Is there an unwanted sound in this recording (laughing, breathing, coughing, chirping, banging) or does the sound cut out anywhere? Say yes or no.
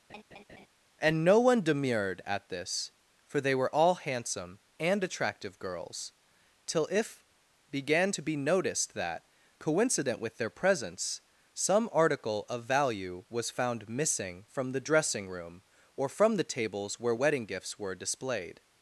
yes